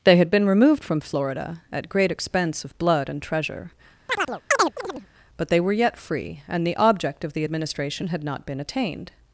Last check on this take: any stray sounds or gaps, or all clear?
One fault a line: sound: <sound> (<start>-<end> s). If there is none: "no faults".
sound: chirp (4.1-5.1 s)